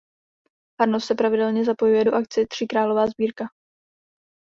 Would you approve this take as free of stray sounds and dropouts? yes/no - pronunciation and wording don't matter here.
yes